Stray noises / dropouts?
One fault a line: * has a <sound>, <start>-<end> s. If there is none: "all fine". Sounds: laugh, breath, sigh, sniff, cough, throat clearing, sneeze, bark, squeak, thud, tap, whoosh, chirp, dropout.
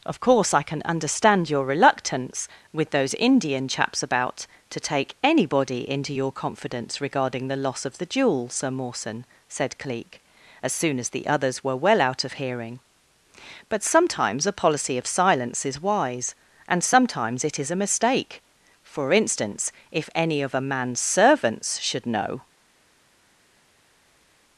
all fine